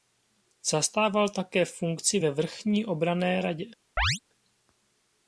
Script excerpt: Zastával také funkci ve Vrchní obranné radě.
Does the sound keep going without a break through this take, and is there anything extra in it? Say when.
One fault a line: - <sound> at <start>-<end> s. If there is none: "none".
- chirp at 4.0-4.2 s